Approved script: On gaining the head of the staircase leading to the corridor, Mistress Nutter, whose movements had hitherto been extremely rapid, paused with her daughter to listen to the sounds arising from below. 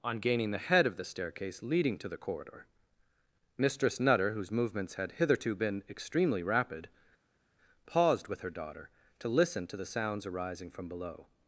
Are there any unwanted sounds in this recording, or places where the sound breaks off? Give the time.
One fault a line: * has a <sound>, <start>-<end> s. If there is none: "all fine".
all fine